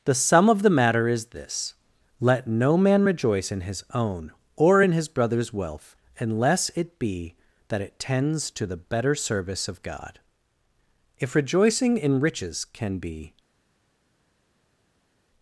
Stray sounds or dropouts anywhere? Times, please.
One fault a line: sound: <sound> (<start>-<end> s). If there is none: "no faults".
no faults